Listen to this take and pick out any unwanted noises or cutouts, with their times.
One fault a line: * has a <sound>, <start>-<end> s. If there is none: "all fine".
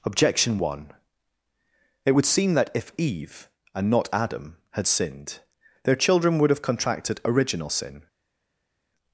all fine